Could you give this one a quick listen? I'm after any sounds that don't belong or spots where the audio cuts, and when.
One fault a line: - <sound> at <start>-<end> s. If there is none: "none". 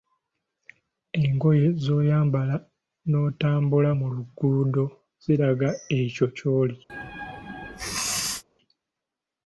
- sneeze at 6.9-8.4 s